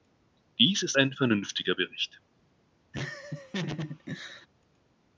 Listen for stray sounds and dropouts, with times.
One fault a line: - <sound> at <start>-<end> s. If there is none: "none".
- laugh at 2.9-4.5 s